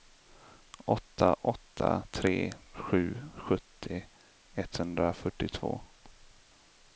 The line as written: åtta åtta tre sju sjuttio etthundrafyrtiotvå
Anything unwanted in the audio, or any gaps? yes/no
no